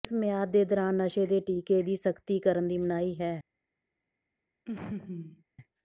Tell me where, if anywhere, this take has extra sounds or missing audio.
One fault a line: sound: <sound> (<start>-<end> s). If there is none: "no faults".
sound: laugh (4.7-5.4 s)